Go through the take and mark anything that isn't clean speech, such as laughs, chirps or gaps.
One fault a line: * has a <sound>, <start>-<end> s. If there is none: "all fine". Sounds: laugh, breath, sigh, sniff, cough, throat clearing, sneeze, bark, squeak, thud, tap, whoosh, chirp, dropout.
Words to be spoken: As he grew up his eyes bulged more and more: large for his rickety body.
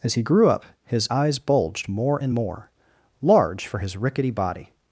all fine